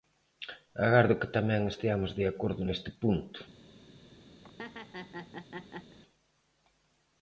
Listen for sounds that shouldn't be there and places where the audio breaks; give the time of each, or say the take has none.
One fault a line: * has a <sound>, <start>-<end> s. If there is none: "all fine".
* has a laugh, 4.4-6.0 s